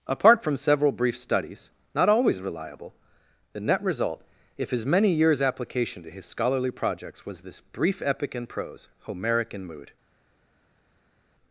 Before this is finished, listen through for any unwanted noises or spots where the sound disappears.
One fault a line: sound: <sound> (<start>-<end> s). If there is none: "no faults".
no faults